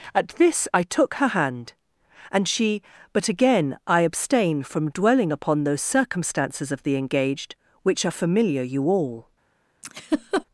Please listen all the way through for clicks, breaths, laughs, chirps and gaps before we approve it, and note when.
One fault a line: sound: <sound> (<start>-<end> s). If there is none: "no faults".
sound: laugh (9.8-10.4 s)